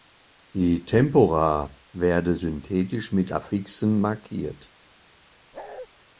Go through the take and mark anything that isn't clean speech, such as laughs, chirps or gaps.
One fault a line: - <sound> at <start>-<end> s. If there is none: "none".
- bark at 5.5-5.9 s